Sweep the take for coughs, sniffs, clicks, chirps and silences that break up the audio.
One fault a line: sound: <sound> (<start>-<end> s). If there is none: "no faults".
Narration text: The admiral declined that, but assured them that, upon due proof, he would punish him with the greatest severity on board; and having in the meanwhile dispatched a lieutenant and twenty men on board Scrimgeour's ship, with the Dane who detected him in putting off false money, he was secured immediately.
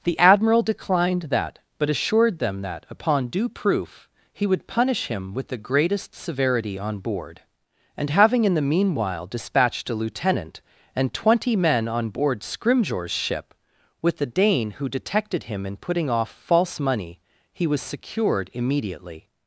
no faults